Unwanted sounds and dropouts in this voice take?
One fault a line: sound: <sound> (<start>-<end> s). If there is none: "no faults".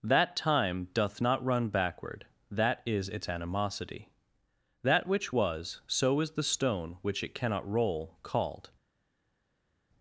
no faults